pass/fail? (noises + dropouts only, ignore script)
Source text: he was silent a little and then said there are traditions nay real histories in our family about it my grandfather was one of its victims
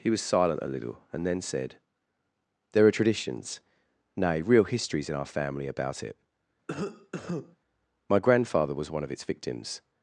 fail